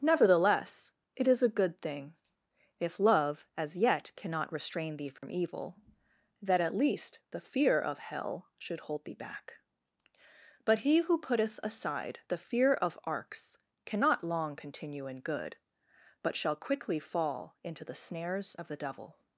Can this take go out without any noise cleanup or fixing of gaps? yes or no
no